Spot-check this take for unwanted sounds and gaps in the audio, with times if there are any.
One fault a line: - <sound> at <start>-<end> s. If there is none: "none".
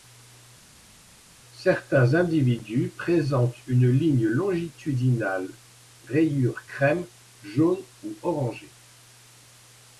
none